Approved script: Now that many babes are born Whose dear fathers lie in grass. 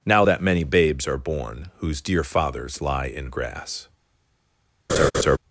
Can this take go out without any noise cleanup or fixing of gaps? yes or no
no